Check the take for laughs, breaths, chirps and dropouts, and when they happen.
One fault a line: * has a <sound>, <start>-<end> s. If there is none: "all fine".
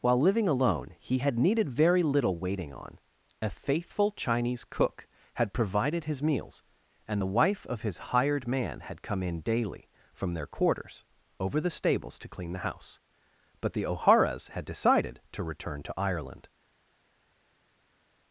all fine